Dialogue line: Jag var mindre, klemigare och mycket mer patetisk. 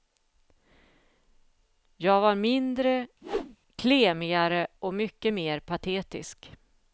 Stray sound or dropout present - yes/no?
yes